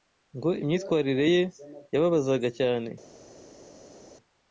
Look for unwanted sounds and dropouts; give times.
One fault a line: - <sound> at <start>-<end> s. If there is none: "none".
none